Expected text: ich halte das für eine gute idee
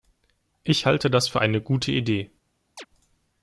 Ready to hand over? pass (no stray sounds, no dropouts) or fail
fail